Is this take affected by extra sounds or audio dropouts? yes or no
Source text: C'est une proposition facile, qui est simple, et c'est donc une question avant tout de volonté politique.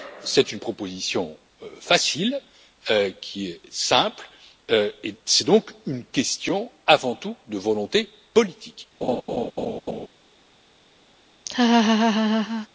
yes